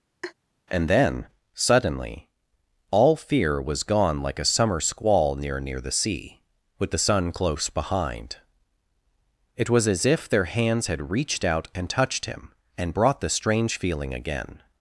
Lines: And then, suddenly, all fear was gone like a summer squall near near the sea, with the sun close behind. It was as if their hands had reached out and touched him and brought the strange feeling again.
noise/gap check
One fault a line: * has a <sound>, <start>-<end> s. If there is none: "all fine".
* has a laugh, 0.2-0.3 s